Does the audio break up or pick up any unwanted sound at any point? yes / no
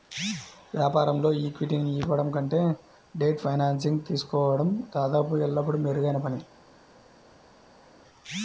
no